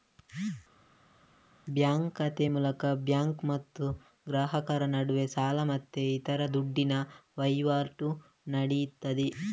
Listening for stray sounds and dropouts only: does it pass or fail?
pass